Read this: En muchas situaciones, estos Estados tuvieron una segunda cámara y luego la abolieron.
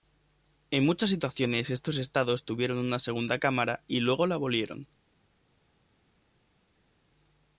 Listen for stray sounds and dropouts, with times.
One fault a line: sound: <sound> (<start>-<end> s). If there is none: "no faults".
no faults